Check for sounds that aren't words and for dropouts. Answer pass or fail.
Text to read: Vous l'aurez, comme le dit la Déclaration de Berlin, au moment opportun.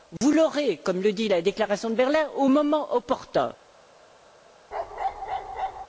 fail